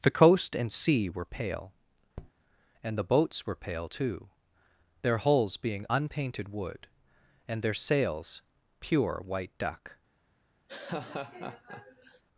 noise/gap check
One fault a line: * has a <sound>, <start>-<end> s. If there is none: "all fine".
* has a tap, 2.2-2.3 s
* has a laugh, 10.7-12.2 s